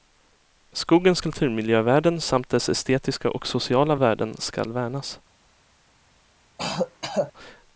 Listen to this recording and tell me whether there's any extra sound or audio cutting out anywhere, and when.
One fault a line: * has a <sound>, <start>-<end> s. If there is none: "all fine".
* has a throat clearing, 6.6-7.3 s